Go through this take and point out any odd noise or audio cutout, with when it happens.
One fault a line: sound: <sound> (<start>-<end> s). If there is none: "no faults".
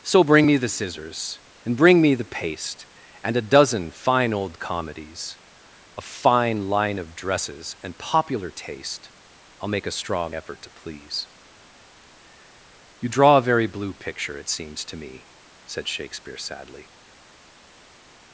no faults